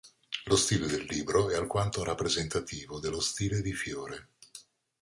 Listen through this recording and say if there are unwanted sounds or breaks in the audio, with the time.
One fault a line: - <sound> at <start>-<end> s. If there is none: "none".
none